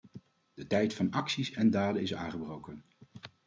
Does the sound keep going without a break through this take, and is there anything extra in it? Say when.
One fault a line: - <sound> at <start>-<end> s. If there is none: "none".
none